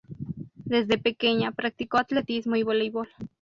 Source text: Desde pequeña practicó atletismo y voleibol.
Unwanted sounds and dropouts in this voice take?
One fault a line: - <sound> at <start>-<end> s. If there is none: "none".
none